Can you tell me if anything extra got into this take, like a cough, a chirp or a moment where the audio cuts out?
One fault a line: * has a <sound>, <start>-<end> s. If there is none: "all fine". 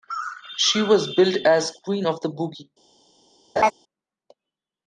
* has a laugh, 3.6-3.7 s